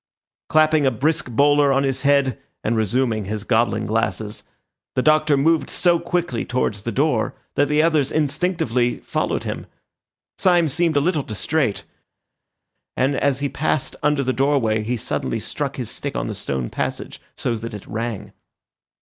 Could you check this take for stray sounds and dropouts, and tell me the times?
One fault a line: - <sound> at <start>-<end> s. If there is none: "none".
none